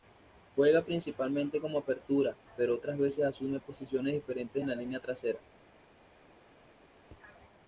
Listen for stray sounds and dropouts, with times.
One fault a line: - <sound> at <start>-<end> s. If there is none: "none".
none